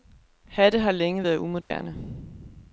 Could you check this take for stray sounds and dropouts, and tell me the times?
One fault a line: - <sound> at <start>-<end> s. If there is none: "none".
- dropout at 1.6-1.7 s